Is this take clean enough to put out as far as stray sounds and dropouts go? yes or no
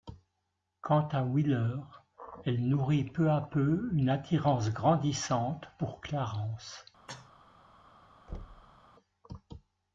no